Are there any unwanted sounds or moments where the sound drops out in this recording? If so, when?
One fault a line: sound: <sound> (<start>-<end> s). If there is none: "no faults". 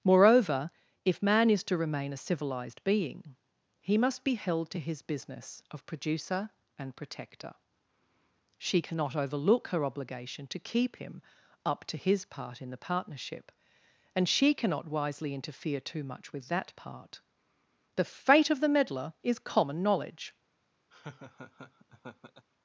sound: laugh (20.9-22.5 s)